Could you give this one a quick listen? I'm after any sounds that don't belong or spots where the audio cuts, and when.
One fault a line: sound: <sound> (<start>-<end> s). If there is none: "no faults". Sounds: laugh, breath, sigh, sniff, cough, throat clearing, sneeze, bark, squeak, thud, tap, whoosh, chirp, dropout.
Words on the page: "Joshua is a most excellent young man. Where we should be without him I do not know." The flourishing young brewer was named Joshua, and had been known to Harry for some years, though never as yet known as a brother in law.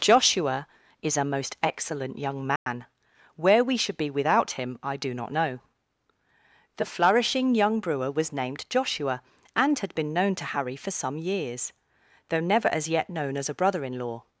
sound: dropout (2.6-2.7 s)